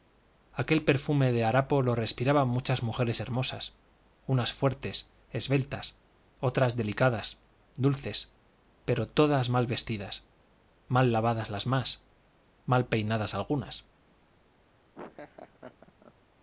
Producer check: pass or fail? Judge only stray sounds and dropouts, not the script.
fail